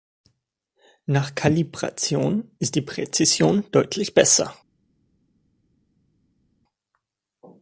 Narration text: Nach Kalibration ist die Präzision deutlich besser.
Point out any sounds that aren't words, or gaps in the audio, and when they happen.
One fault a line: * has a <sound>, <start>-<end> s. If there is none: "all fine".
all fine